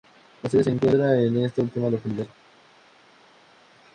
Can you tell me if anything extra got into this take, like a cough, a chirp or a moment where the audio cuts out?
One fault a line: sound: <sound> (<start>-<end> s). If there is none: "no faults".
no faults